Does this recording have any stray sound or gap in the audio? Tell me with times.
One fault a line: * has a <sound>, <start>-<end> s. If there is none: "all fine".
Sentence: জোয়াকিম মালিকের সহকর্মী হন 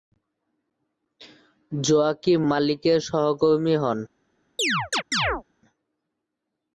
* has a chirp, 4.6-5.4 s